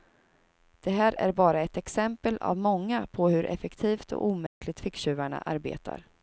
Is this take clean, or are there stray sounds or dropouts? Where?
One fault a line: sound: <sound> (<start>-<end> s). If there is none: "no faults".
sound: dropout (4.5-4.6 s)